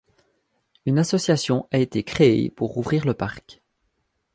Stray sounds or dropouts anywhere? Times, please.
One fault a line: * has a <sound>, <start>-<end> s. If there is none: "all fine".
all fine